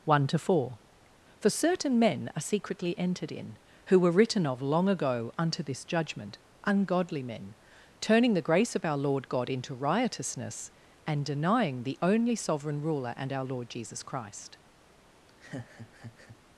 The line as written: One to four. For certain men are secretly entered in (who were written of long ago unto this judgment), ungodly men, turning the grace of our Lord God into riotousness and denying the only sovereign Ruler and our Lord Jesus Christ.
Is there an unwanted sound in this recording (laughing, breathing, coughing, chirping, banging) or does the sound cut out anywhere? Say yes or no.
yes